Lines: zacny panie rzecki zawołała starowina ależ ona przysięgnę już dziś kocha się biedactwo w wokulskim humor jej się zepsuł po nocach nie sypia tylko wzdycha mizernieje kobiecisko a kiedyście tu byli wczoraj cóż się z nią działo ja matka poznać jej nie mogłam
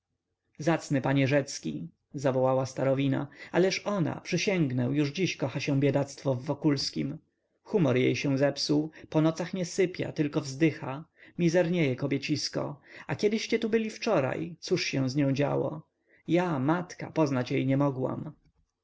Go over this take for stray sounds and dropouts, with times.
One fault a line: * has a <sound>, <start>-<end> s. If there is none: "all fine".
all fine